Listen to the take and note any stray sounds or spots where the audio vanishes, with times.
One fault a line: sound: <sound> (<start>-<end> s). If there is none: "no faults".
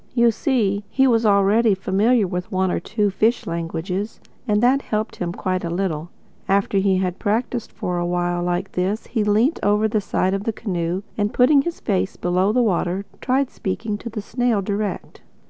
no faults